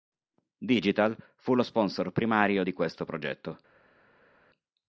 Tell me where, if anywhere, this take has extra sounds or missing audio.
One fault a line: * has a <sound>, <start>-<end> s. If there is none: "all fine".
all fine